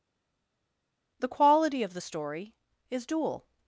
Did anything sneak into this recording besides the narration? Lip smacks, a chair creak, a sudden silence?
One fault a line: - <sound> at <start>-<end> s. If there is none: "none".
none